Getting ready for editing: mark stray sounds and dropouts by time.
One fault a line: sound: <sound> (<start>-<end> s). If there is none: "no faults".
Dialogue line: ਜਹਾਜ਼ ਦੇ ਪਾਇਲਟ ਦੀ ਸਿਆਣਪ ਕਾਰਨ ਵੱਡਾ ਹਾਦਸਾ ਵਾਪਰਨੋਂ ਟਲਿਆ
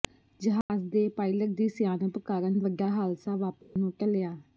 sound: dropout (0.6-0.7 s)
sound: dropout (3.6-3.8 s)